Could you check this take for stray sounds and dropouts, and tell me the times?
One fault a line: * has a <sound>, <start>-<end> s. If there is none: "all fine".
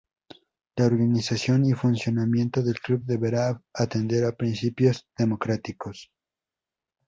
all fine